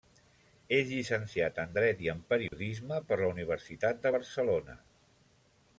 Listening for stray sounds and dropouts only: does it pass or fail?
fail